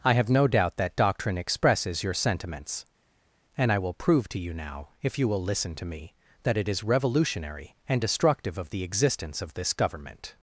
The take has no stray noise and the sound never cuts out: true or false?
true